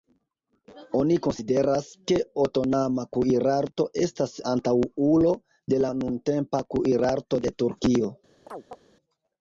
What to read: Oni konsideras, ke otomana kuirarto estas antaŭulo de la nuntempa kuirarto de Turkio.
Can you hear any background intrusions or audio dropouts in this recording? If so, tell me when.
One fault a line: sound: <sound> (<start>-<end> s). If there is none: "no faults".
sound: chirp (8.5-8.8 s)